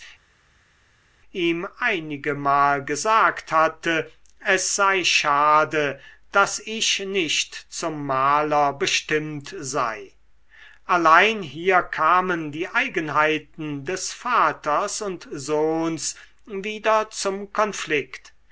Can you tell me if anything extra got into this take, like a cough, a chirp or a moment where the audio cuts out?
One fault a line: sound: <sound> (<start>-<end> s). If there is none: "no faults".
no faults